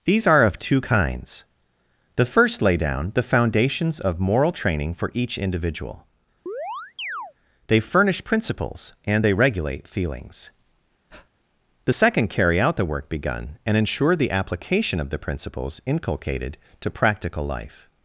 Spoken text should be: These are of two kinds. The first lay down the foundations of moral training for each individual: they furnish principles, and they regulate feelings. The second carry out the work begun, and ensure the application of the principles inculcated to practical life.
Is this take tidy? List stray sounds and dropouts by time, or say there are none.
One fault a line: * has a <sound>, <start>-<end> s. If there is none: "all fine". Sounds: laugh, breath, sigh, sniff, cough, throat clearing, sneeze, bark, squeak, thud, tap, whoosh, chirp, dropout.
* has a chirp, 6.5-7.3 s
* has a breath, 11.1-11.3 s